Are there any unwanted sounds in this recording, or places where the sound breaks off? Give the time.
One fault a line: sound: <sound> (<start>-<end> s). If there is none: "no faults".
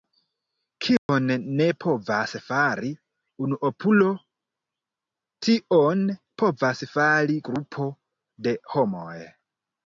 sound: dropout (1.0-1.1 s)